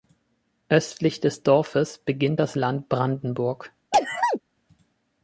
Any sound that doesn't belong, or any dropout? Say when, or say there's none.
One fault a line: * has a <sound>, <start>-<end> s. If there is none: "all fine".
* has a sneeze, 3.9-4.4 s